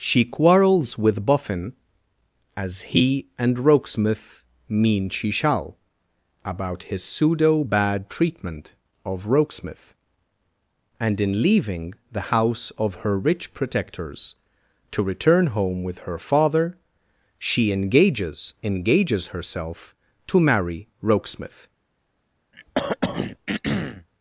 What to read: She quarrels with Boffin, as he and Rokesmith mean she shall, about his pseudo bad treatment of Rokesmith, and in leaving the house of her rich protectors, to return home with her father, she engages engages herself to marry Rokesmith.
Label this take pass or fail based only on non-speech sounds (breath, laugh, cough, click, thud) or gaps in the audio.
fail